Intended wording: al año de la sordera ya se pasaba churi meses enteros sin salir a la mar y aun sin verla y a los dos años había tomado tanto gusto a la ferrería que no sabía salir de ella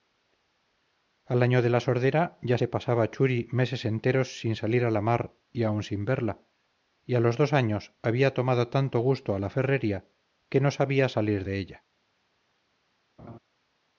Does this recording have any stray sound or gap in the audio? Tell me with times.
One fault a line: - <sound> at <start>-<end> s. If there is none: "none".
- laugh at 13.2-13.4 s